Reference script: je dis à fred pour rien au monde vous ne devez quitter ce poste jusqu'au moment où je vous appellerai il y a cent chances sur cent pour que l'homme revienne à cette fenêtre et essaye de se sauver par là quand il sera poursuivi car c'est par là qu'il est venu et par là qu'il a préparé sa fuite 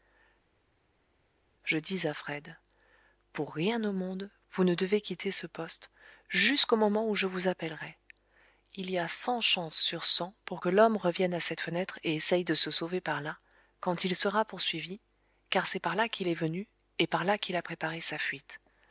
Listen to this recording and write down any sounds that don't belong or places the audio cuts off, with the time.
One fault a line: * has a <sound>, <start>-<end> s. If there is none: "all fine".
all fine